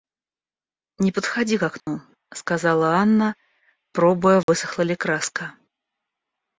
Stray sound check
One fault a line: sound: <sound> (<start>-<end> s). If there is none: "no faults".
sound: dropout (1.8-1.9 s)
sound: dropout (4.4-4.5 s)